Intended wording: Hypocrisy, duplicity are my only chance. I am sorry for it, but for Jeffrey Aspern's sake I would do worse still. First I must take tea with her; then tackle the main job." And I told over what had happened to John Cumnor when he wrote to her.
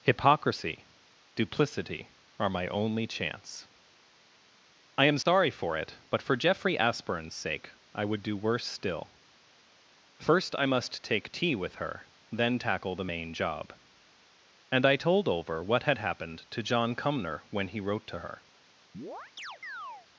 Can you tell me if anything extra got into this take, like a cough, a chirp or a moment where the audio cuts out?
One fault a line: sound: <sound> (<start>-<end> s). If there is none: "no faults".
sound: dropout (5.2-5.3 s)
sound: chirp (18.9-20.1 s)